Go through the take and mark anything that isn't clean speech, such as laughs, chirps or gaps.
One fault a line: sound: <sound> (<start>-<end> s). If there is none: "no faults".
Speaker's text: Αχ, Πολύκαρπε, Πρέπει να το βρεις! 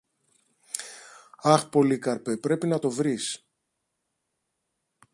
no faults